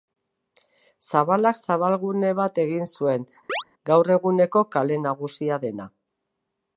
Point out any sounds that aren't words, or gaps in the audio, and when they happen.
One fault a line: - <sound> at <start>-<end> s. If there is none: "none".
- chirp at 3.5-3.6 s